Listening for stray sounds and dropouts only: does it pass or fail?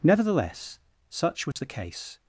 fail